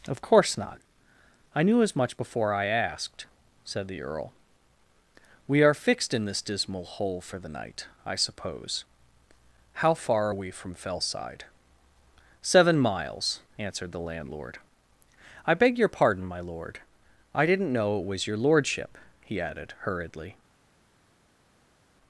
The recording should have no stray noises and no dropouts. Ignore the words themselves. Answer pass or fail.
pass